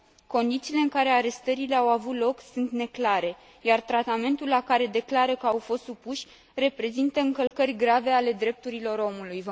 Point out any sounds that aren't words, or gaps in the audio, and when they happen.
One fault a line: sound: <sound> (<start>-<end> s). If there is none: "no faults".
sound: dropout (7.5-7.5 s)